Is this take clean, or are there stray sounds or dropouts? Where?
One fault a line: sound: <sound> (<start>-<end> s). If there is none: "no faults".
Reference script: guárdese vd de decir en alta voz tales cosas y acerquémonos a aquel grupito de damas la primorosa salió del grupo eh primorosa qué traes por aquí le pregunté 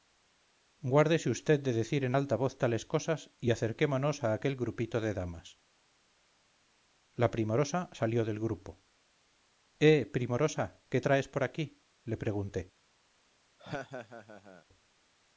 sound: laugh (13.6-14.6 s)